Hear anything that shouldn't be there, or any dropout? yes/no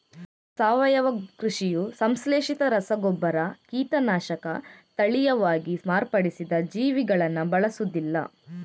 no